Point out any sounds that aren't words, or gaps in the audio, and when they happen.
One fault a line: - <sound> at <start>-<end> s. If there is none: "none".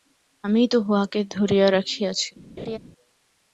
- laugh at 2.6-2.8 s